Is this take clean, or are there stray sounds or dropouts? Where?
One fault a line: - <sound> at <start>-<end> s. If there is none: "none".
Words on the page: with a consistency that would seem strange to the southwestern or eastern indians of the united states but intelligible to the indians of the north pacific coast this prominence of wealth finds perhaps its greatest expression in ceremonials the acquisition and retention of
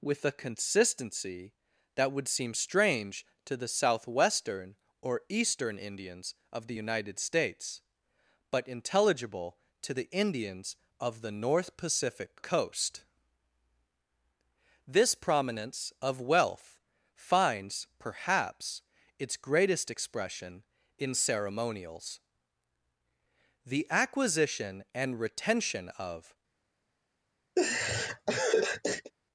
- laugh at 27.6-29.1 s